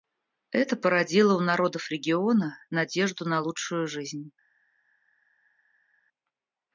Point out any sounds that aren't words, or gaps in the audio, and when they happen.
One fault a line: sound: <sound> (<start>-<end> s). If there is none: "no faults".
no faults